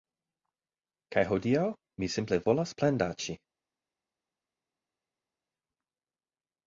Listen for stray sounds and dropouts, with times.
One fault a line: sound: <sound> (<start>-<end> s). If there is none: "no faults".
no faults